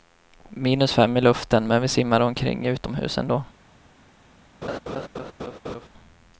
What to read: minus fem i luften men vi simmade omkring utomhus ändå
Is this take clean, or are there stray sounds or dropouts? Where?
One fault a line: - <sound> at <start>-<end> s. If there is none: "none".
- laugh at 4.6-5.9 s